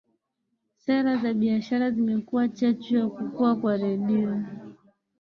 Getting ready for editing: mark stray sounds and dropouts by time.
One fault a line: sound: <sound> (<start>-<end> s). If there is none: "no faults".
no faults